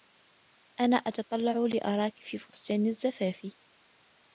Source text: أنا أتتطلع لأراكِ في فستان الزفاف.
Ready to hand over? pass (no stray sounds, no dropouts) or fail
fail